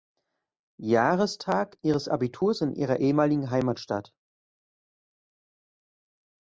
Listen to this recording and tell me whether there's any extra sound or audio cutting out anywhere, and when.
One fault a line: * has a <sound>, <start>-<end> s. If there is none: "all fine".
all fine